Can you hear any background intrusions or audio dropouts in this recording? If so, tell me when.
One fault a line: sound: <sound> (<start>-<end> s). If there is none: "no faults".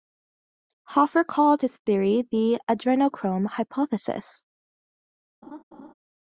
sound: laugh (5.4-5.9 s)